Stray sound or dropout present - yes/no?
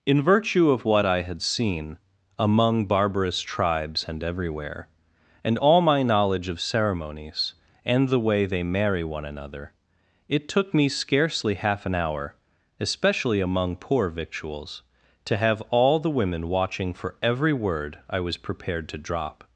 no